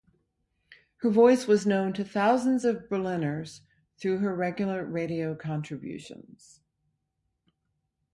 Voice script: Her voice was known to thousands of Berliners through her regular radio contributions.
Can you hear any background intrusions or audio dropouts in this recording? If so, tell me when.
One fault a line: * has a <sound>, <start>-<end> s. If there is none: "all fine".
all fine